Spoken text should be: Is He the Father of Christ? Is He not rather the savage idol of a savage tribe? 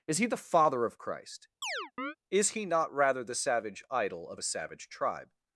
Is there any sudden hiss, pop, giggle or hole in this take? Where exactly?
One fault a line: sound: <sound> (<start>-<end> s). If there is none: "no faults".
sound: chirp (1.6-2.2 s)